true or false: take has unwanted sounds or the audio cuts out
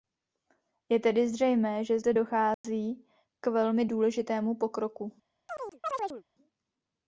true